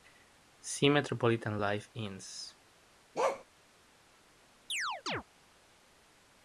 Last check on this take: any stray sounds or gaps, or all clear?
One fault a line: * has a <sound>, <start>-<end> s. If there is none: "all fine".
* has a bark, 3.1-3.4 s
* has a chirp, 4.7-5.2 s